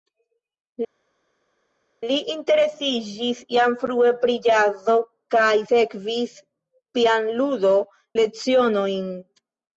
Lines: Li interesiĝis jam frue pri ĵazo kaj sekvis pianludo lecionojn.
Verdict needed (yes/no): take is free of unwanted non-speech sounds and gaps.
yes